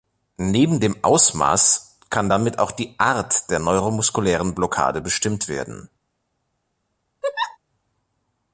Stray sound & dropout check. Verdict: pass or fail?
fail